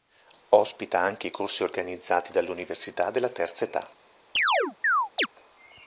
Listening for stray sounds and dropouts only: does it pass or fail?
fail